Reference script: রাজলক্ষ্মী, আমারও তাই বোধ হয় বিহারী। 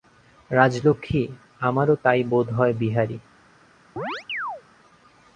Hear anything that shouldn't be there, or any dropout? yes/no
yes